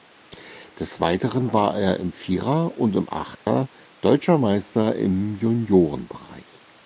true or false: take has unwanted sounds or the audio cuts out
true